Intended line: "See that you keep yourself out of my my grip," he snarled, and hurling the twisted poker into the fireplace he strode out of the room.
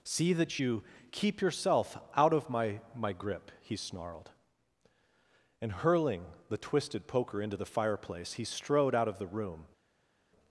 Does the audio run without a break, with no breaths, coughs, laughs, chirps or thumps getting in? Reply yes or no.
yes